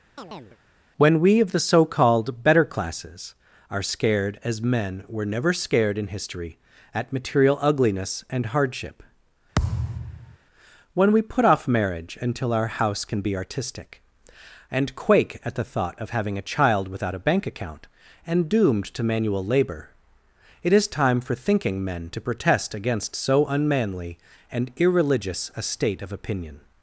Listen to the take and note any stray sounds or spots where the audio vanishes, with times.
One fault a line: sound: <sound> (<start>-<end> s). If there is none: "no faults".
sound: chirp (0.2-0.6 s)
sound: thud (9.5-10.4 s)